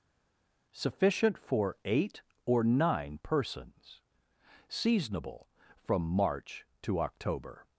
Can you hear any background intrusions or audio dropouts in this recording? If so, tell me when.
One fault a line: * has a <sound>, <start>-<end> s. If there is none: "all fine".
all fine